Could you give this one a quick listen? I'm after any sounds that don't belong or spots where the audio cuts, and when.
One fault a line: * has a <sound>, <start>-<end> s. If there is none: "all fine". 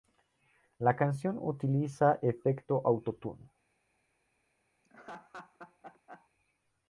* has a laugh, 4.8-6.3 s